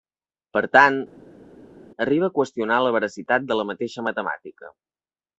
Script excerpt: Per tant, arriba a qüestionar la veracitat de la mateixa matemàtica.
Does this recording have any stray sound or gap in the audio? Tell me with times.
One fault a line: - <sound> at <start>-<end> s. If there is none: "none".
none